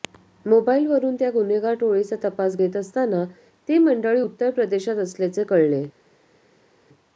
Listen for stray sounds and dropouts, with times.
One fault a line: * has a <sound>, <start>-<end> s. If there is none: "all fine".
all fine